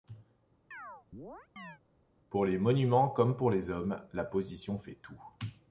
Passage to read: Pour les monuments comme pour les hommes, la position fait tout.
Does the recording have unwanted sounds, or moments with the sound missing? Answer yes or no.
yes